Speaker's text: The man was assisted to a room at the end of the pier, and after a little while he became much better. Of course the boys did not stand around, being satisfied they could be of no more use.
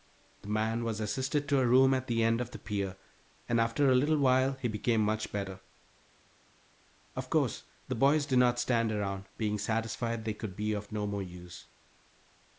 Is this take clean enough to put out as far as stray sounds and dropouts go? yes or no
yes